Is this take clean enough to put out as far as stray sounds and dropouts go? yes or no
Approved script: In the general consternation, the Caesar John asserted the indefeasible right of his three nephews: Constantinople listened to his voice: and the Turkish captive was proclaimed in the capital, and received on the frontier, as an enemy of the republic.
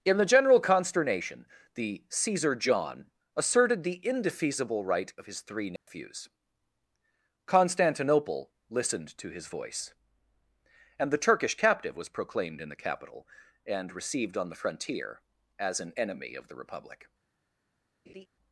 no